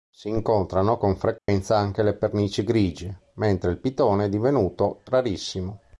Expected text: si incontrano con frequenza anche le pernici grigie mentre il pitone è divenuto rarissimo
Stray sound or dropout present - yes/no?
yes